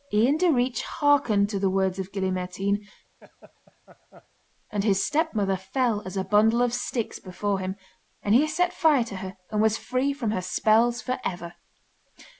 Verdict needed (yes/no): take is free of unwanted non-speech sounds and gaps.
no